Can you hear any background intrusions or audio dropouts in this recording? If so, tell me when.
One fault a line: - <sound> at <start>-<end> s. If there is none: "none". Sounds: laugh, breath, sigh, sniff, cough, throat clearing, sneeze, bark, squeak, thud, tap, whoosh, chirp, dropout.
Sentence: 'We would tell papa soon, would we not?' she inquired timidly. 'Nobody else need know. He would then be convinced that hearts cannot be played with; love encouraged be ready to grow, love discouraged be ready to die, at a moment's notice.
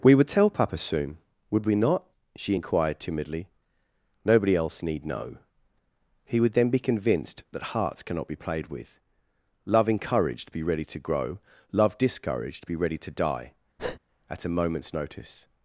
- breath at 13.8-14.0 s